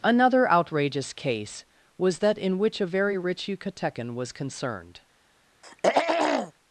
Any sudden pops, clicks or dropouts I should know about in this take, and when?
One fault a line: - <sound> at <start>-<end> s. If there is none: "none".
- throat clearing at 5.6-6.5 s